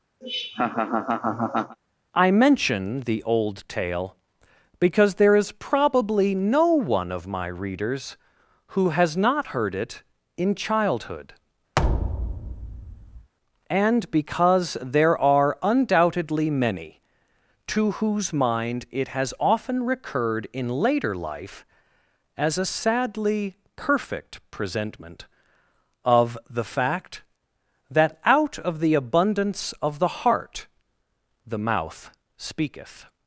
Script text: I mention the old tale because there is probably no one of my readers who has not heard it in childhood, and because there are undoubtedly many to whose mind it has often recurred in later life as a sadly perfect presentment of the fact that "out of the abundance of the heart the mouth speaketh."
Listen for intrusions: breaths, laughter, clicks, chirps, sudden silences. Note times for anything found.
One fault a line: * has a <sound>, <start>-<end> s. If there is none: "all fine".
* has a laugh, 0.2-1.8 s
* has a thud, 11.8-13.3 s